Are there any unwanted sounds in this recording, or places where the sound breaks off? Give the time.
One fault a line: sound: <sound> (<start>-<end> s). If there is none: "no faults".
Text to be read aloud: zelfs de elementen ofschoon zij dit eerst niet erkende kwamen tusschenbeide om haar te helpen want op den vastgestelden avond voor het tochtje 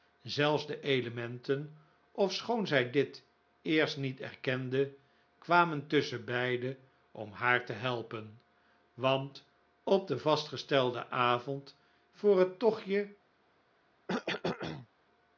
sound: cough (14.1-14.9 s)